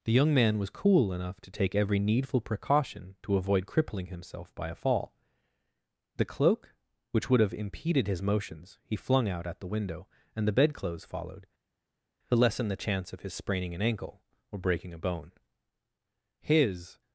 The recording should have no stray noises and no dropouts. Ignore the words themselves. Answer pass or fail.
pass